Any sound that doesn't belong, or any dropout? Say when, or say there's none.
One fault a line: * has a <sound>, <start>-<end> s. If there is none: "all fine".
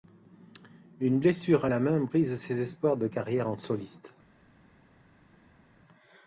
all fine